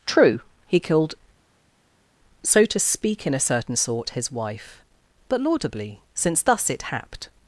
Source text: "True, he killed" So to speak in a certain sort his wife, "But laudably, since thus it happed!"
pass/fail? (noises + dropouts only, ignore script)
pass